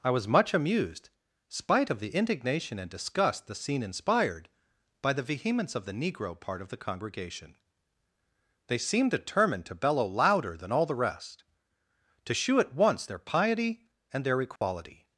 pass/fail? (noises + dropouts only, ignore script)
fail